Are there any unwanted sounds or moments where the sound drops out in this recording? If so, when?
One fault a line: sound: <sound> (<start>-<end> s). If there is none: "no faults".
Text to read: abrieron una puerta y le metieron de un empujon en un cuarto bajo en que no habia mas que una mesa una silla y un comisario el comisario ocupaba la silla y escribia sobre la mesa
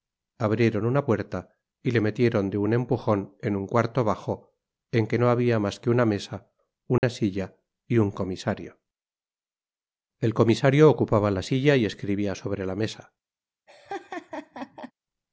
sound: dropout (7.0-7.0 s)
sound: laugh (13.7-14.9 s)